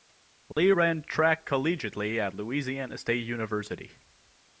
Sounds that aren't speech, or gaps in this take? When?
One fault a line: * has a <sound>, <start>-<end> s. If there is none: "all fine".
* has a dropout, 0.5-0.6 s